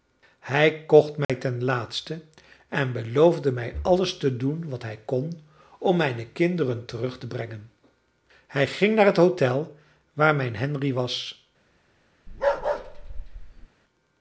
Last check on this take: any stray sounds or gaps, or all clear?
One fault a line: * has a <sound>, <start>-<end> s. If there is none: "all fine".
* has a dropout, 1.2-1.3 s
* has a bark, 12.3-13.7 s